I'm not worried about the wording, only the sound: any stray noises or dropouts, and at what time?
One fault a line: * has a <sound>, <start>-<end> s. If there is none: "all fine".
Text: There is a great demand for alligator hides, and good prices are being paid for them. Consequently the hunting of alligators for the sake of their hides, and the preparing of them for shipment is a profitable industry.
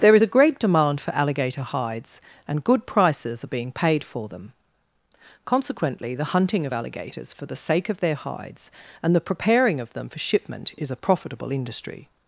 all fine